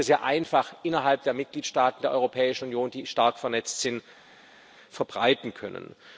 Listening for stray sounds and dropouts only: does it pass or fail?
pass